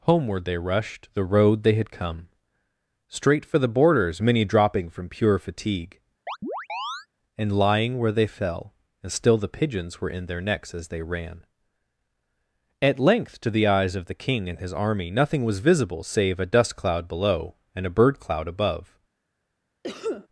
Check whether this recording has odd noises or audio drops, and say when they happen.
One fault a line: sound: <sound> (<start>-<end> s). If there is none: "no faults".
sound: chirp (6.3-7.1 s)
sound: cough (19.8-20.3 s)